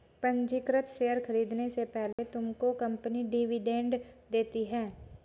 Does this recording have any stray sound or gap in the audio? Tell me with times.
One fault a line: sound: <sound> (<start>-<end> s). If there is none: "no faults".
sound: dropout (2.1-2.2 s)